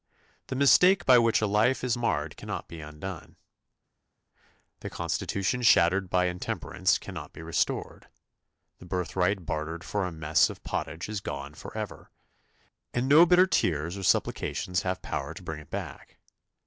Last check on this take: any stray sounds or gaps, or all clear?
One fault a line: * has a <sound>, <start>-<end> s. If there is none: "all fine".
all fine